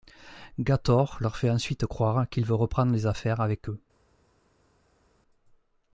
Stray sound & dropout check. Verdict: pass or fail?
pass